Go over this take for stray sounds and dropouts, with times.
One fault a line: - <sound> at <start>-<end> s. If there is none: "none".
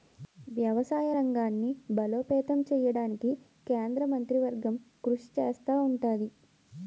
none